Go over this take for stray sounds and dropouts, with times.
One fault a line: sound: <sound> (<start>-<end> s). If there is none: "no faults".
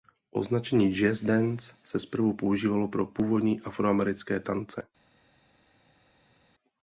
no faults